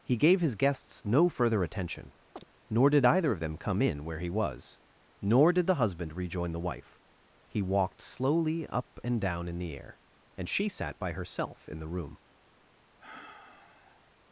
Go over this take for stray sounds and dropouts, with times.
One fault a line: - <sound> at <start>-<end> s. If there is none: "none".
- chirp at 2.4-2.4 s
- sigh at 13.0-14.1 s